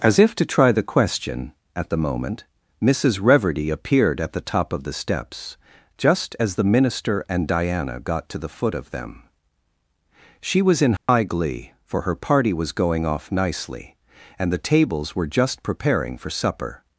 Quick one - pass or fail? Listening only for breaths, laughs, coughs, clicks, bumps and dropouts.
fail